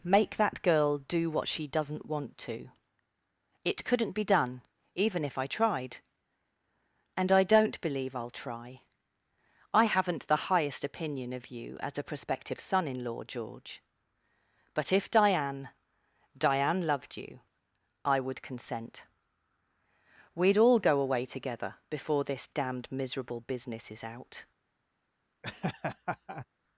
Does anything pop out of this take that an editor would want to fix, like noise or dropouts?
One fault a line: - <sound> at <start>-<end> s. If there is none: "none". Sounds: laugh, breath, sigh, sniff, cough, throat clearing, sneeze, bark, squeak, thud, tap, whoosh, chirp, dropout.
- laugh at 25.4-26.5 s